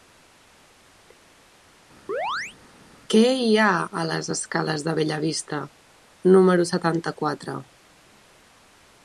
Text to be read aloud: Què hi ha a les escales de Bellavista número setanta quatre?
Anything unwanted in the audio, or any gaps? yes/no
yes